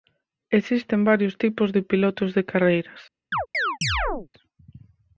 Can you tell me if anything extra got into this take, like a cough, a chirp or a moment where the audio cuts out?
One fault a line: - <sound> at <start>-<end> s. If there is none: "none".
- chirp at 3.3-4.3 s